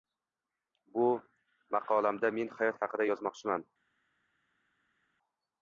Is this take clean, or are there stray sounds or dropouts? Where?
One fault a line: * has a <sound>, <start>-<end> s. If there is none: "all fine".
all fine